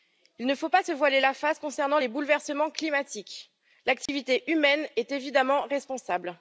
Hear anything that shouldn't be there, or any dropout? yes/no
yes